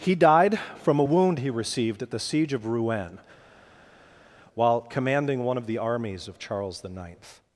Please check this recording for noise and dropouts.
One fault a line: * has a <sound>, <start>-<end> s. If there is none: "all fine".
all fine